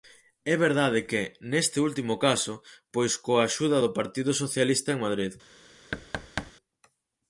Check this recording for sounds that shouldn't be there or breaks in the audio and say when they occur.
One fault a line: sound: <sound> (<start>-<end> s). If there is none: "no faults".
sound: thud (5.9-6.5 s)